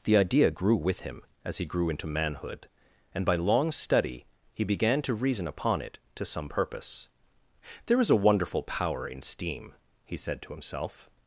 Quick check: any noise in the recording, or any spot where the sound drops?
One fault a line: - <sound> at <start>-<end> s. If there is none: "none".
none